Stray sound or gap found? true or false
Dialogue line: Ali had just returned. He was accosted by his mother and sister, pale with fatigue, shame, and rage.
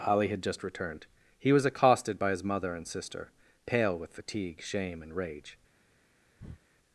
true